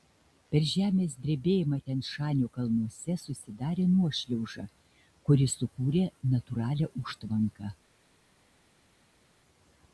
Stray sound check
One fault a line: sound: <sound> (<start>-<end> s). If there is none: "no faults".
no faults